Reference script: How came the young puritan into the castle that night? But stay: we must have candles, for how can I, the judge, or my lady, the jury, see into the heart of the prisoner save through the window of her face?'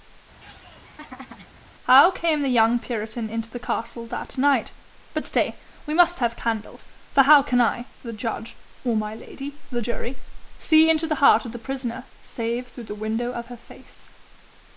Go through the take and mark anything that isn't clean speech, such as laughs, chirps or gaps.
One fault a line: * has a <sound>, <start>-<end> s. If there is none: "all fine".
* has a laugh, 0.4-1.6 s